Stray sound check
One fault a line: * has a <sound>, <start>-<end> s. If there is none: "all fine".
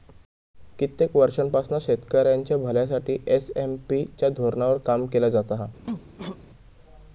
* has a cough, 5.8-6.4 s